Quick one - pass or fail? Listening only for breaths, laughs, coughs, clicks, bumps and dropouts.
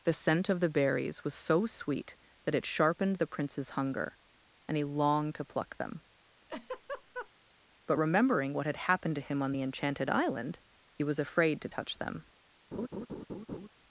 fail